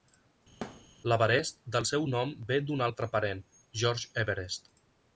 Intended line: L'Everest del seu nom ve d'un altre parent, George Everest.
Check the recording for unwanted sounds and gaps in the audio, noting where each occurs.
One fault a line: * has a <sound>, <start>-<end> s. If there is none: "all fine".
* has a thud, 0.6-0.9 s